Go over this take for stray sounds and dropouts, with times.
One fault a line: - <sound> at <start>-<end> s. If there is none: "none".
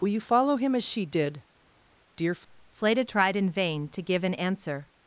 none